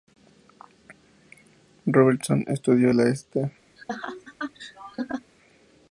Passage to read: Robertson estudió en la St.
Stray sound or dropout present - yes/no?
yes